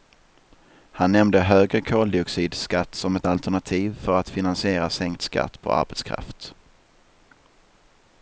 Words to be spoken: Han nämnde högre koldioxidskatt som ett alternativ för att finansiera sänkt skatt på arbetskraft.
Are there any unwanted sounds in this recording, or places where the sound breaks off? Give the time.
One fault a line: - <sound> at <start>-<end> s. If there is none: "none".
none